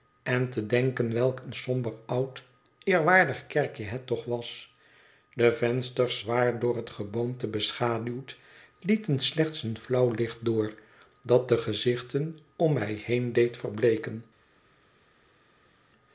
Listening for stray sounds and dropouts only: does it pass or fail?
pass